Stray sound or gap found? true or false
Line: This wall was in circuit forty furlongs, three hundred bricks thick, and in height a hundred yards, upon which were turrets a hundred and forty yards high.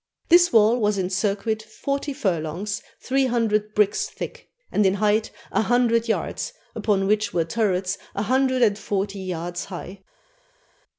false